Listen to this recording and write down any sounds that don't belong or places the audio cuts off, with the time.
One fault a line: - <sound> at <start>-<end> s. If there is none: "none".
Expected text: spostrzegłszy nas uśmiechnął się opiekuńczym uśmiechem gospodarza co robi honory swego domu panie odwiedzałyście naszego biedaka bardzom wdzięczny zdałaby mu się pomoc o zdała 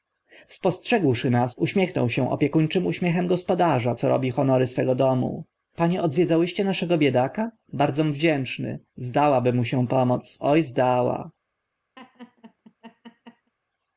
- laugh at 12.0-13.5 s